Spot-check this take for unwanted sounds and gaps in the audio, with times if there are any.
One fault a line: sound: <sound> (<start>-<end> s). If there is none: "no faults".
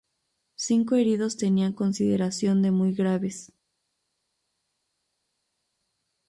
no faults